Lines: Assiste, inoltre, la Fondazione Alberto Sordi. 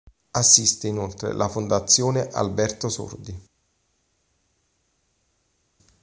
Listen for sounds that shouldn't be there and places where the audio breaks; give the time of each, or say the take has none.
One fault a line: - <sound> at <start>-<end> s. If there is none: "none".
none